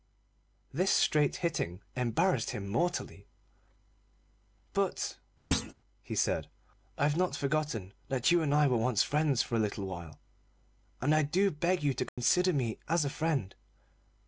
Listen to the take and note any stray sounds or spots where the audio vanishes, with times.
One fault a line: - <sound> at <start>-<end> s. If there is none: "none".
- thud at 5.5-5.7 s
- dropout at 12.1-12.2 s